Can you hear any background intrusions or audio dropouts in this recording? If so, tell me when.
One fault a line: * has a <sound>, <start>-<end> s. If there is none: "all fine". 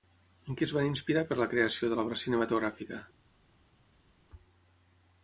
all fine